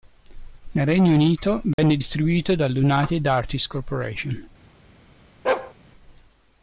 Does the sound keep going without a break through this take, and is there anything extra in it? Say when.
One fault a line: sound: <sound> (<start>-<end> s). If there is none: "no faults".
sound: dropout (1.7-1.8 s)
sound: bark (5.4-5.7 s)